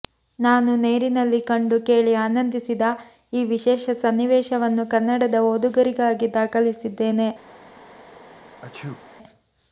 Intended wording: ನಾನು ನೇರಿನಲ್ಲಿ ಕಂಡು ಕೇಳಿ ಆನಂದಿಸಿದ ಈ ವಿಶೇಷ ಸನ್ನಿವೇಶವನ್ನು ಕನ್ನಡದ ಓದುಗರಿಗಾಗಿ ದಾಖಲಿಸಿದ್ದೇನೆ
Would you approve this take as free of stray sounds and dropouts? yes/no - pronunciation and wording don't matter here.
no